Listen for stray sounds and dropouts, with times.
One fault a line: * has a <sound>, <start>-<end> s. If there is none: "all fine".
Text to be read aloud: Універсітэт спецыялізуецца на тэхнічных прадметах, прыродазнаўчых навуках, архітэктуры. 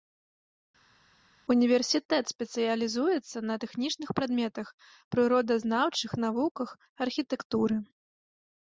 all fine